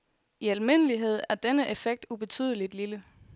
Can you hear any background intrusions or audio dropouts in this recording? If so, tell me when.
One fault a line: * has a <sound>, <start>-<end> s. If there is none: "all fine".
all fine